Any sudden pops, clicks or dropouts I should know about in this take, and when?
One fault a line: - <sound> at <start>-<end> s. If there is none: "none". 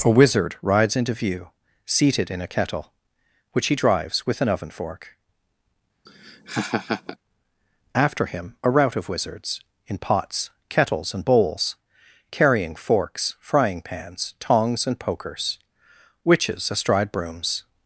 - laugh at 6.1-7.2 s